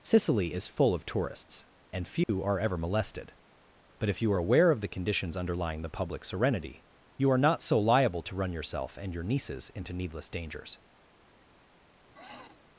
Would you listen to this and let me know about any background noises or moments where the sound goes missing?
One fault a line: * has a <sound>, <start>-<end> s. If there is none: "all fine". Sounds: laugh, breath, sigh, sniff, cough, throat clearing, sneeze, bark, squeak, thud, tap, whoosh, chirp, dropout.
* has a dropout, 2.2-2.3 s
* has a sniff, 12.1-12.6 s